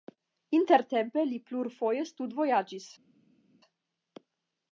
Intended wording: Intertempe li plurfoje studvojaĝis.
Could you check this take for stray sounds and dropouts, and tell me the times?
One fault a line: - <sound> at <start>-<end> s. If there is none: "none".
none